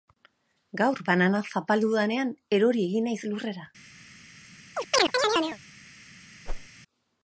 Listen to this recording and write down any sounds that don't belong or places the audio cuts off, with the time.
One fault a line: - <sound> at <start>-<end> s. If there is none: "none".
- chirp at 4.8-5.6 s
- whoosh at 6.5-6.7 s